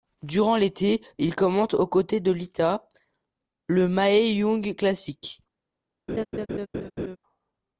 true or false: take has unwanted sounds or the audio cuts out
true